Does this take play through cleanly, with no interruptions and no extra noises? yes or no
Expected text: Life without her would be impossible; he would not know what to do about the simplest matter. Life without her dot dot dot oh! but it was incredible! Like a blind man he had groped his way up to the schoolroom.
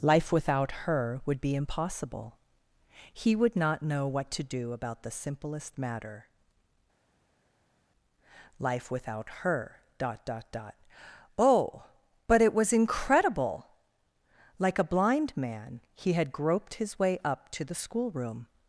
yes